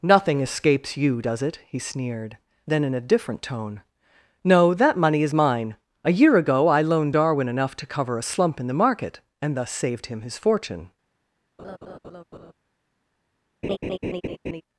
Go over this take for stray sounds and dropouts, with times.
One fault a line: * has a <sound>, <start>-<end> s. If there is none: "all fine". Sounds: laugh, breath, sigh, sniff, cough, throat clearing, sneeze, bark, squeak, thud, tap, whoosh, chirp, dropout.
* has a laugh, 11.6-12.5 s
* has a laugh, 13.6-14.6 s